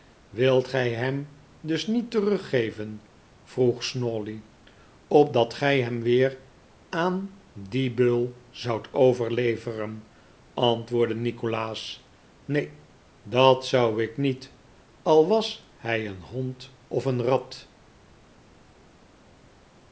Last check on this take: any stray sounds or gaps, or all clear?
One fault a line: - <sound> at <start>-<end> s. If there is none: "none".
none